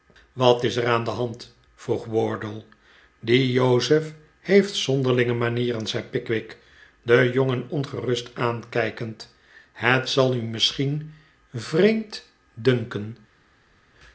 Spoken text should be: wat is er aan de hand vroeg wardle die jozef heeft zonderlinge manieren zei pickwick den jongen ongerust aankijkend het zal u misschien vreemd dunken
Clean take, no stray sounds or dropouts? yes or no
yes